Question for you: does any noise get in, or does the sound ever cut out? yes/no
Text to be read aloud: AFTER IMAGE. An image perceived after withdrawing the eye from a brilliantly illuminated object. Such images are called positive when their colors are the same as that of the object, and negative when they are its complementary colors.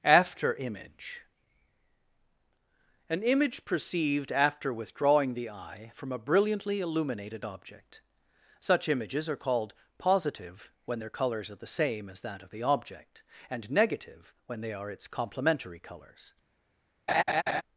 yes